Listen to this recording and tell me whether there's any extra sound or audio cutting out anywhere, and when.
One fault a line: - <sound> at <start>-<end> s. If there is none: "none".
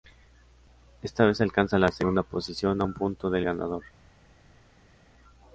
none